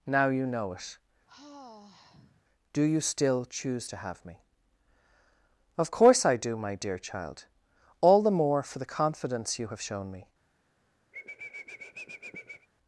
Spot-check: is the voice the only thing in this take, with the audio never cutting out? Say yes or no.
no